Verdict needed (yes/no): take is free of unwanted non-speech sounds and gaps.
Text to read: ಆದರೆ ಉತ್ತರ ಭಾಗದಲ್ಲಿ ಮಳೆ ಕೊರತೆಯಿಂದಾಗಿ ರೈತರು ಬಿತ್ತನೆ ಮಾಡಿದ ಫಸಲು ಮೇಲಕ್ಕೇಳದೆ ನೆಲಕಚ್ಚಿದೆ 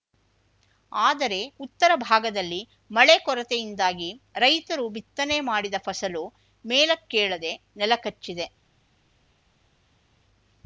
yes